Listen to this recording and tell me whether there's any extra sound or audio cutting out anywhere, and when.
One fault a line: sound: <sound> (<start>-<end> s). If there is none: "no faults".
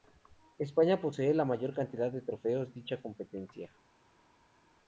no faults